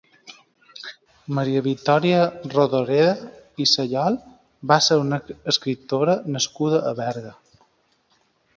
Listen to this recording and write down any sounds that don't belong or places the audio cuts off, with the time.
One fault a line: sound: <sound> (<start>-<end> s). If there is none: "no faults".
no faults